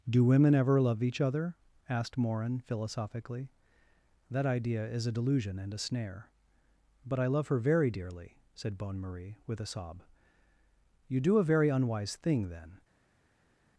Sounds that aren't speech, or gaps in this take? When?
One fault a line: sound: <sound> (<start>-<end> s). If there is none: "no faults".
no faults